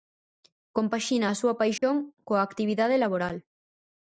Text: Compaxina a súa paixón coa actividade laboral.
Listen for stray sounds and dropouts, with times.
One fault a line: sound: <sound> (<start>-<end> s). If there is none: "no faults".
sound: dropout (1.8-1.8 s)